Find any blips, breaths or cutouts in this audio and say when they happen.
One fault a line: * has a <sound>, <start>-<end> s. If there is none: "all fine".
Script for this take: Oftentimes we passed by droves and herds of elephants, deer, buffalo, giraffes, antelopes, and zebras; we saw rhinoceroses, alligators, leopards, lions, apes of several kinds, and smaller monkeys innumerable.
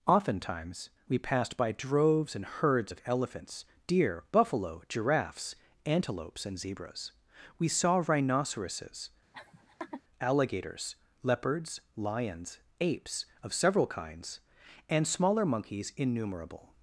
* has a laugh, 9.3-10.0 s